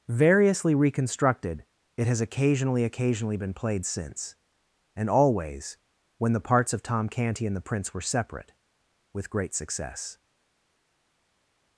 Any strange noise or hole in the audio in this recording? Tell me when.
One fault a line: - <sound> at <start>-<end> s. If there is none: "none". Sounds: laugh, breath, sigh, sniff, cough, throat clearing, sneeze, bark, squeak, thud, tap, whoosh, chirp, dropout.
none